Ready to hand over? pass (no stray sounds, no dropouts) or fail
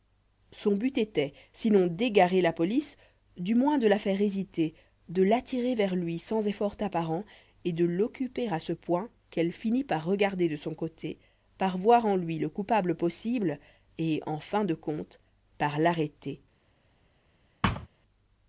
fail